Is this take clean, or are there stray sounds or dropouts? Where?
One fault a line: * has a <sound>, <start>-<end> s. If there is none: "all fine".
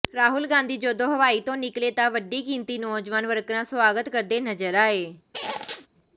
* has a squeak, 5.3-5.9 s